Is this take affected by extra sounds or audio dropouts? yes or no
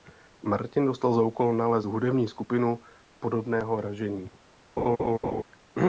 yes